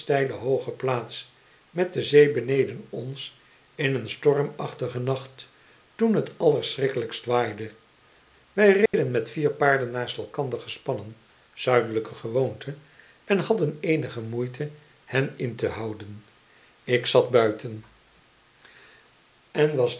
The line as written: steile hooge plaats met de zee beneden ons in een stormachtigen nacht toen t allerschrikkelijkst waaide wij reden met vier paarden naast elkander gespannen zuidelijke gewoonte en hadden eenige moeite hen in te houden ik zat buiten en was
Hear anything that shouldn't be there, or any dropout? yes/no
yes